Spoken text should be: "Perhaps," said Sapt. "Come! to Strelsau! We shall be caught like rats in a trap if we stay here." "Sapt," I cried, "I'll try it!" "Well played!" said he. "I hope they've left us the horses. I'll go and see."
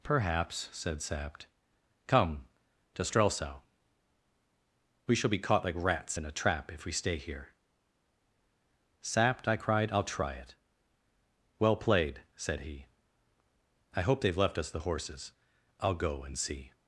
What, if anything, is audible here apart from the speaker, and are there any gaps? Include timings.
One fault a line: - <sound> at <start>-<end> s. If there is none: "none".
none